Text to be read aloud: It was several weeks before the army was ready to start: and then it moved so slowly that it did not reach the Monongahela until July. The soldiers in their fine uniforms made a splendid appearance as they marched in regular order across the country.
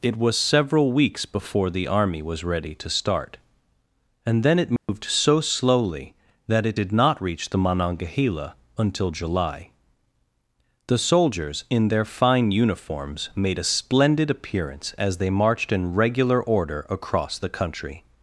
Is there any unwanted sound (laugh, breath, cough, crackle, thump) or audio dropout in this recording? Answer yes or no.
yes